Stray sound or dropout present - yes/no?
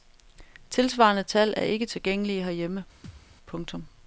yes